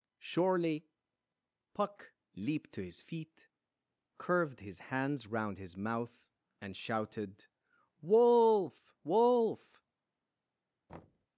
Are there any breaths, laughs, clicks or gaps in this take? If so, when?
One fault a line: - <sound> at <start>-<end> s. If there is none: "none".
- thud at 10.9-11.3 s